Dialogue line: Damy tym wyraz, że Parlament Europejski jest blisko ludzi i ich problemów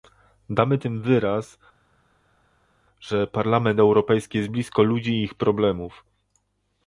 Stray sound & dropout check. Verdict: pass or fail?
pass